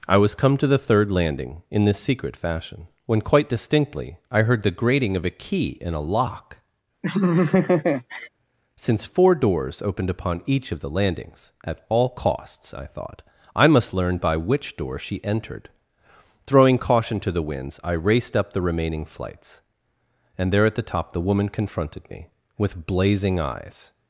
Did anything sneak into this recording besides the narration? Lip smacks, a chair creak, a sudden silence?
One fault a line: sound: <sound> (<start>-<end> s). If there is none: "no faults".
sound: laugh (7.0-8.3 s)